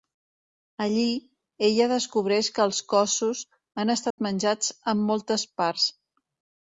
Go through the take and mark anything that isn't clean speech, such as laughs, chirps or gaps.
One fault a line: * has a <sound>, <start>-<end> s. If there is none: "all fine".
* has a dropout, 4.1-4.2 s